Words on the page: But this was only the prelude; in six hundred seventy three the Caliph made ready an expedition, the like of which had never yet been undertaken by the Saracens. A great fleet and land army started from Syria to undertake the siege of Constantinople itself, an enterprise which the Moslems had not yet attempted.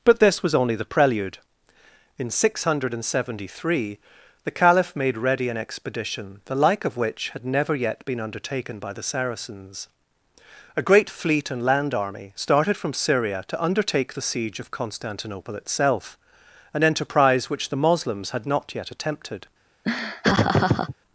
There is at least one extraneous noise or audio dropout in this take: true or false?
true